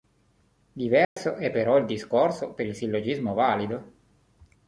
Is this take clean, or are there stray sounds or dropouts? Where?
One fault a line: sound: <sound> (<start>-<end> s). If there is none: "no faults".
sound: dropout (1.0-1.2 s)